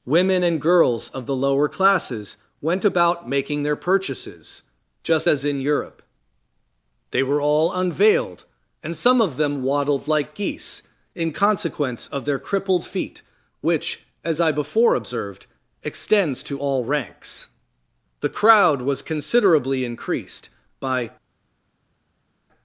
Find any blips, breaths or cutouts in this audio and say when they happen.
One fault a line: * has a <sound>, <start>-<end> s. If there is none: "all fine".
all fine